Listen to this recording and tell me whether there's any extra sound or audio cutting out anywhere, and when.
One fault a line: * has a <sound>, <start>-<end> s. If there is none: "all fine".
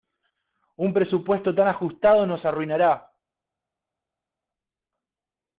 all fine